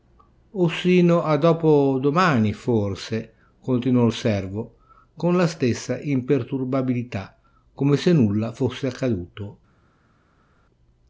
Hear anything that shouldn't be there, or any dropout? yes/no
no